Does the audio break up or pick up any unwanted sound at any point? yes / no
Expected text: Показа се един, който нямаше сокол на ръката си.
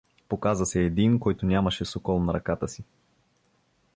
no